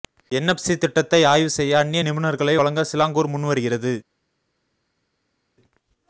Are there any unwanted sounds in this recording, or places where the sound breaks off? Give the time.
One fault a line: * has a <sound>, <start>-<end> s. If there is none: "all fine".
all fine